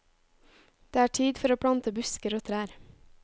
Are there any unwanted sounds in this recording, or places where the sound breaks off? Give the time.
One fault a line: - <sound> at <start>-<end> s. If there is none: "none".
none